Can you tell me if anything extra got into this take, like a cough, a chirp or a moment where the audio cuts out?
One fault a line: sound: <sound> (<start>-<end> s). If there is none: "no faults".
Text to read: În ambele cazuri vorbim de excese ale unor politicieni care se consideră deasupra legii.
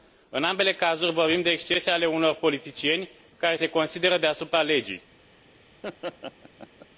sound: laugh (5.8-6.9 s)